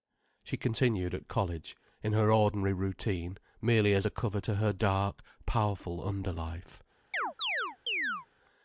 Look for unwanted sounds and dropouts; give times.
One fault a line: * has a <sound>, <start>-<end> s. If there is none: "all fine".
* has a chirp, 7.1-8.3 s